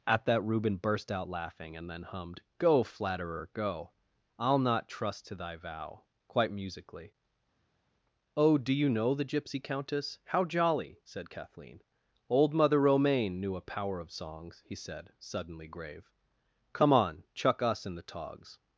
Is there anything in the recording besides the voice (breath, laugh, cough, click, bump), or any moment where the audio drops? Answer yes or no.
no